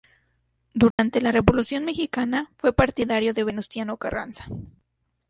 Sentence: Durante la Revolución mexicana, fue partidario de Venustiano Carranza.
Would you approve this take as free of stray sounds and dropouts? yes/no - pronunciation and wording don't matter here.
no